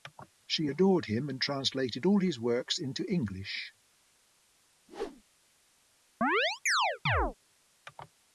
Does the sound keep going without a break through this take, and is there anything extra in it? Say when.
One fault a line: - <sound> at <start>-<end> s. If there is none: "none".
- whoosh at 4.9-5.2 s
- chirp at 6.2-7.3 s